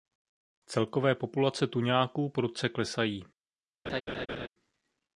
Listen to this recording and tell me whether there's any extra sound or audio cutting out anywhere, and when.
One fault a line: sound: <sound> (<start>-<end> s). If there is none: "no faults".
sound: laugh (3.9-4.5 s)